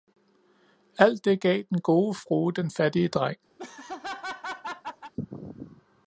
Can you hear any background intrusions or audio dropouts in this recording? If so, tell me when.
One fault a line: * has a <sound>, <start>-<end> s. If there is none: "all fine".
* has a laugh, 3.6-5.1 s